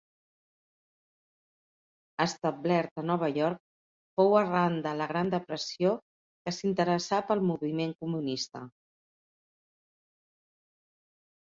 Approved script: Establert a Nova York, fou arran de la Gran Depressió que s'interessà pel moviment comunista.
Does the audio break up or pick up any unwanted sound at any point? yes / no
no